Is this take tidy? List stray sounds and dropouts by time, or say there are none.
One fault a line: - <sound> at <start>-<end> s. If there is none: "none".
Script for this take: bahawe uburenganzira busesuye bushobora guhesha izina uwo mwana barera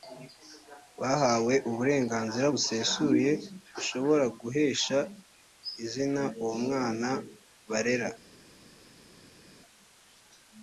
none